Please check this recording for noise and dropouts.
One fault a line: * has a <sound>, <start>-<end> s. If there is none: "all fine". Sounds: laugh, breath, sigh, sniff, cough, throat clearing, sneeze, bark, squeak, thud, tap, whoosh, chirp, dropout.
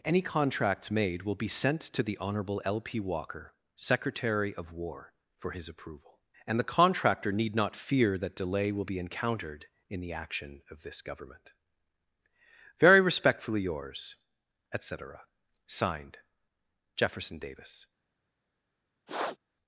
* has a sniff, 19.1-19.4 s